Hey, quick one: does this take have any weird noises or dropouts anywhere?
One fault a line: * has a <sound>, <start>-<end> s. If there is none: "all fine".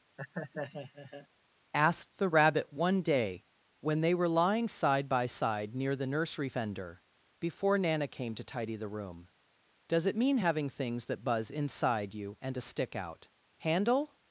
* has a laugh, 0.2-1.3 s